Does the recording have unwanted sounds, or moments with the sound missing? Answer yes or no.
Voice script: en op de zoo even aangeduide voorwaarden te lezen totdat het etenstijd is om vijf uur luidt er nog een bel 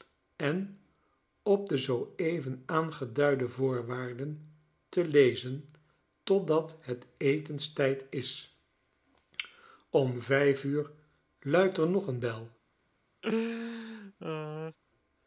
yes